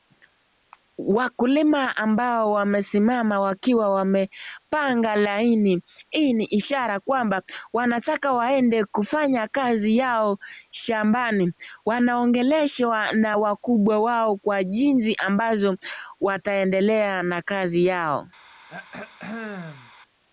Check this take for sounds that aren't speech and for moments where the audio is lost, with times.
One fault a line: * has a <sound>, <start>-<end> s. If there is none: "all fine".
* has a throat clearing, 18.7-19.9 s